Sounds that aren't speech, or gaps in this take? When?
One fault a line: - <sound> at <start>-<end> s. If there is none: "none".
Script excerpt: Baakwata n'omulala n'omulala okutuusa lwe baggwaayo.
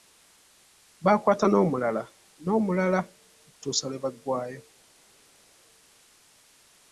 none